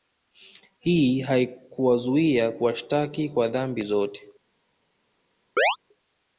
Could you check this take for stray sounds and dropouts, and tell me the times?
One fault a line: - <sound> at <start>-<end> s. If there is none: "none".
- chirp at 5.6-5.8 s